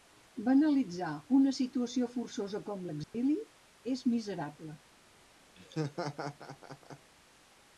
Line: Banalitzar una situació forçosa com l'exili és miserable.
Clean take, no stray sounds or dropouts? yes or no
no